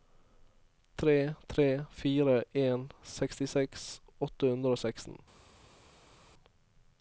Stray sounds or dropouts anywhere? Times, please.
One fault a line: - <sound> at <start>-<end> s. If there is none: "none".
none